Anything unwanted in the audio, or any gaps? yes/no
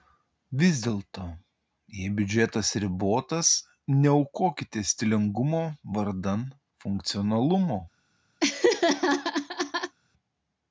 yes